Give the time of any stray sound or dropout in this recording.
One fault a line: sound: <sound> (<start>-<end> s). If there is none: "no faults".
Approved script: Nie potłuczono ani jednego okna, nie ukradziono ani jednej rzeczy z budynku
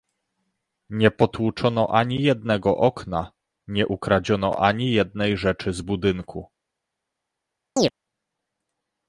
sound: chirp (7.8-7.9 s)